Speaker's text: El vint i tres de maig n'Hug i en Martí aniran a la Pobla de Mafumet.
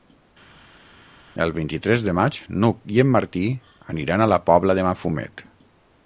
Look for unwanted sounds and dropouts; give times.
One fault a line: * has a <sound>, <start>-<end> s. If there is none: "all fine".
all fine